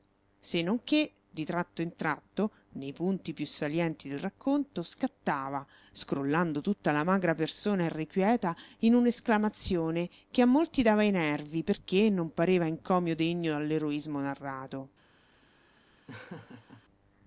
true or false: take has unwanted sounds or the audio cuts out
true